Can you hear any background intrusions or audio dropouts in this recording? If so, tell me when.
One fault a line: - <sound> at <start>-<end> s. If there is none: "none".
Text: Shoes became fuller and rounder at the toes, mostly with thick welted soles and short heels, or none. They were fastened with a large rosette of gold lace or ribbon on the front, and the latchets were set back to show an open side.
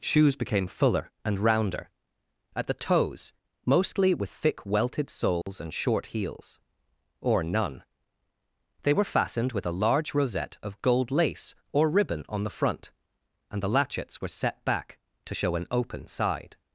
- dropout at 5.4-5.5 s